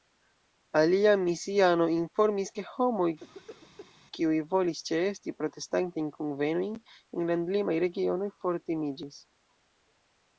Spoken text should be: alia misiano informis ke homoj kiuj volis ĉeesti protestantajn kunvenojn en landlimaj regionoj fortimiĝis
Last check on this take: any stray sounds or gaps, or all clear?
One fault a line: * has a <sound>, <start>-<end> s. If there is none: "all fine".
* has a cough, 3.2-3.9 s